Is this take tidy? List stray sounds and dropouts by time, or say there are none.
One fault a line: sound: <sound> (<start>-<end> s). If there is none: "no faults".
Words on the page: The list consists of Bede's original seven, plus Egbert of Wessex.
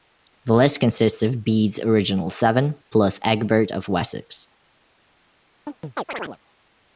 sound: chirp (5.7-6.4 s)